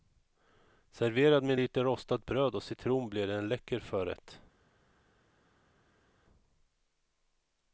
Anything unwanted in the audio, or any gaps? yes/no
no